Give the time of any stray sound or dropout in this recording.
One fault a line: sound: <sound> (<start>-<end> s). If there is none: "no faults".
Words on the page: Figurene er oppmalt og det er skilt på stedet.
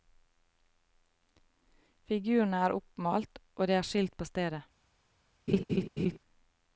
sound: laugh (5.5-6.2 s)